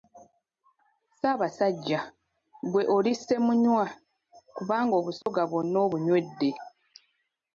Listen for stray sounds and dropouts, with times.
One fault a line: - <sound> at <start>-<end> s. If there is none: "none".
- dropout at 5.2-5.3 s